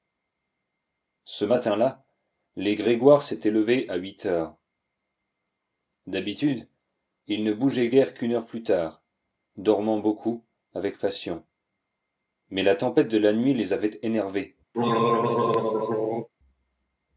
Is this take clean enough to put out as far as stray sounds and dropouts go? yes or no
no